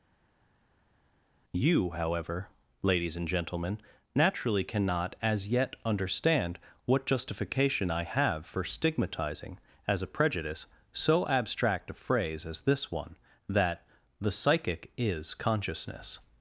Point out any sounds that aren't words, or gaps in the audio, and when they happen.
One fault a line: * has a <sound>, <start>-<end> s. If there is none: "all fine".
all fine